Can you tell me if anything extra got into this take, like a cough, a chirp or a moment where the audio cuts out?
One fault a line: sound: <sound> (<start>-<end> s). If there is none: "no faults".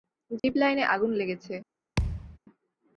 sound: dropout (0.4-0.4 s)
sound: thud (2.0-2.4 s)